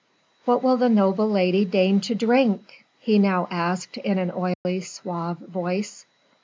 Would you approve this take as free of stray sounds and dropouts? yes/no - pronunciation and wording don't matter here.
no